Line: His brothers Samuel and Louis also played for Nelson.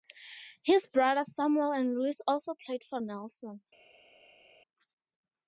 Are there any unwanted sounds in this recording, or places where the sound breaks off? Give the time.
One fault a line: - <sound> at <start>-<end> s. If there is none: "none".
none